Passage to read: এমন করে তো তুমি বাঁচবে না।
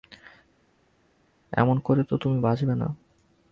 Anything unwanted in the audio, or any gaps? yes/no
no